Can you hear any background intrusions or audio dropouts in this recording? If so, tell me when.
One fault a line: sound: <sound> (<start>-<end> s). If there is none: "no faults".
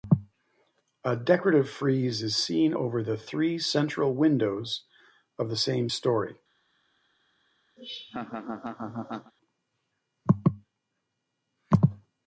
sound: laugh (7.8-9.3 s)